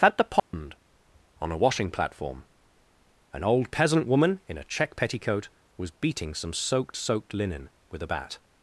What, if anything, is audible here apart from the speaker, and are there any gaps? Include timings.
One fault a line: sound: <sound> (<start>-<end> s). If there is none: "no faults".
sound: dropout (0.4-0.5 s)